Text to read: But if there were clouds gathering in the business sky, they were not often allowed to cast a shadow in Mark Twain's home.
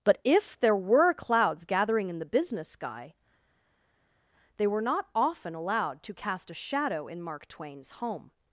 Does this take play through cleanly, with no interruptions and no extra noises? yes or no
yes